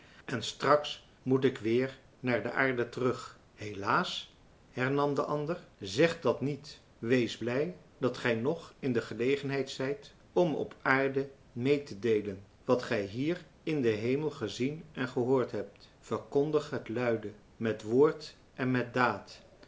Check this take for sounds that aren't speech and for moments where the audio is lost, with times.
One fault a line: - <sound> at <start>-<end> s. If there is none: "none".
none